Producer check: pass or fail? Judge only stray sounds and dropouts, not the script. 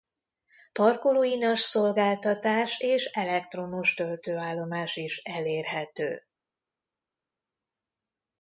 pass